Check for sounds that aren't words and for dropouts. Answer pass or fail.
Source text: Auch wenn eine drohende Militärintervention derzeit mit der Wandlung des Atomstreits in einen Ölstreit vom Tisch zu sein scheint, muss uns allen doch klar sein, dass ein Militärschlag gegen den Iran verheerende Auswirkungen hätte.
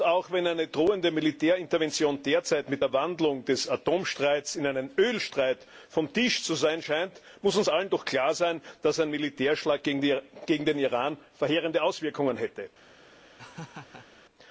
fail